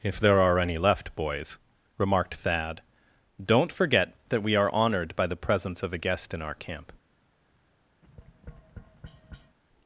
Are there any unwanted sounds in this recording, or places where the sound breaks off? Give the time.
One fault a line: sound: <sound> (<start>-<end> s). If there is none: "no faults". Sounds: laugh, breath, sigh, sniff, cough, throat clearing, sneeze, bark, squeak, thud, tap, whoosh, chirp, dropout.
sound: tap (8.0-9.6 s)